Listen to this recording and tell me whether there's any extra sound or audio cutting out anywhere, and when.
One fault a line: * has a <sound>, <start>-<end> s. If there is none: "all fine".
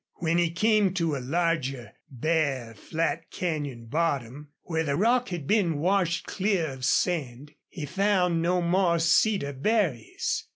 all fine